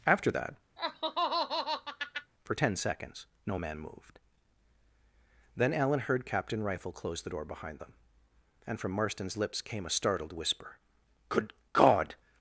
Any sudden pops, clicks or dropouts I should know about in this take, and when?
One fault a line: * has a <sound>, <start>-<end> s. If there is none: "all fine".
* has a laugh, 0.8-2.3 s